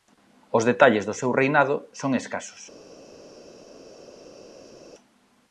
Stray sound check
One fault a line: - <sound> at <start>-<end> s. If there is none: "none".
none